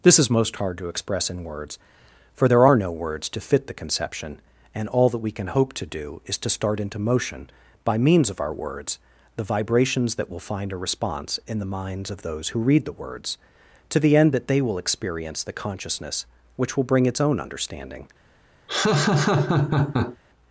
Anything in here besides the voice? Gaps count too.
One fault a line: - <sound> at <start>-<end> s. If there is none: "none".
- laugh at 18.7-20.2 s